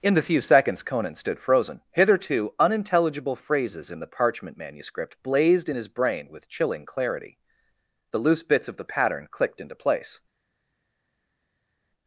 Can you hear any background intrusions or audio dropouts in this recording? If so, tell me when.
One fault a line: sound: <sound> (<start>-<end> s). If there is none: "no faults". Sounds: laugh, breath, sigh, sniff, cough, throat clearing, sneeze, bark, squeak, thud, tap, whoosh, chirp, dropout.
no faults